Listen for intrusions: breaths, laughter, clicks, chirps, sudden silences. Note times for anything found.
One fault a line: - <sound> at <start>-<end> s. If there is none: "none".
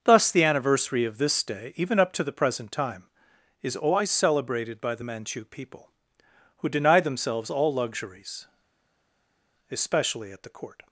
none